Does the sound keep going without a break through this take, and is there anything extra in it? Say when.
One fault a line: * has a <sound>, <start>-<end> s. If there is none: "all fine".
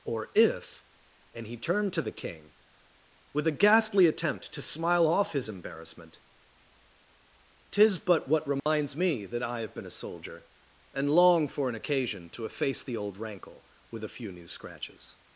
* has a dropout, 8.6-8.7 s